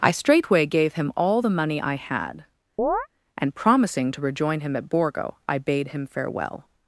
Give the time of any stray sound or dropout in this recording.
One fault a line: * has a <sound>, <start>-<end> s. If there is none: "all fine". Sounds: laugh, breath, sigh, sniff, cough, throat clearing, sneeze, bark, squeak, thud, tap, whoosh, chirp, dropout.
* has a chirp, 2.8-3.1 s